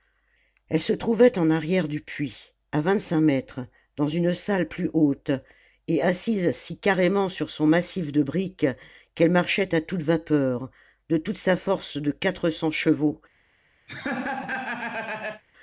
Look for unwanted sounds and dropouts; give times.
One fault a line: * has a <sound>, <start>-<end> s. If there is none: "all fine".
* has a laugh, 13.9-15.4 s